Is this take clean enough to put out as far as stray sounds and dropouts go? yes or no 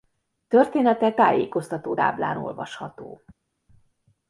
yes